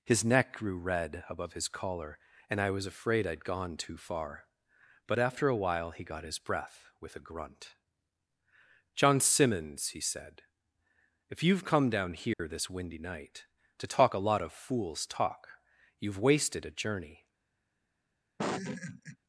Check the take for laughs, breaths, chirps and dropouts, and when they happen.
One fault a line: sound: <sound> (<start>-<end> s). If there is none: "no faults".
sound: dropout (12.3-12.4 s)
sound: laugh (18.4-19.2 s)